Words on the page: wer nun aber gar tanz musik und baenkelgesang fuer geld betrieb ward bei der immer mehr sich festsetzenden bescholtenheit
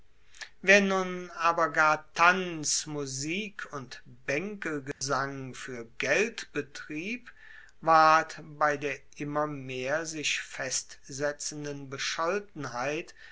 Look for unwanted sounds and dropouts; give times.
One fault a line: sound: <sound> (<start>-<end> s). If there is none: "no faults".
sound: dropout (4.9-5.0 s)